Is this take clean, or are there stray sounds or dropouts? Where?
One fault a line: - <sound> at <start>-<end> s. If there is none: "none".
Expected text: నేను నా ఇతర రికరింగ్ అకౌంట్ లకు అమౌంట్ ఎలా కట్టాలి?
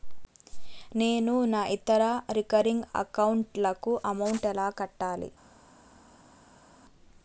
none